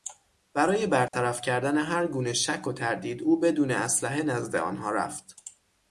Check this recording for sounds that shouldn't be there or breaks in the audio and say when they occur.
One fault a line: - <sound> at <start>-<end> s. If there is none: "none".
- dropout at 1.1-1.1 s